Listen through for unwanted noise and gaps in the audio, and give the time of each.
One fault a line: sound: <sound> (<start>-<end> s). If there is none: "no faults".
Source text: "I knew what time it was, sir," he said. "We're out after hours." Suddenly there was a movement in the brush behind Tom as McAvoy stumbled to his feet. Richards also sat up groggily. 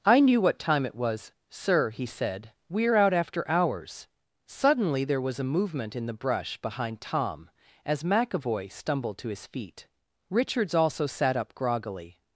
no faults